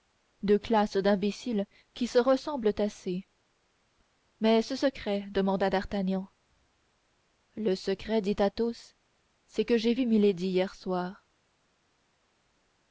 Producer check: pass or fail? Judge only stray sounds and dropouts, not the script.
pass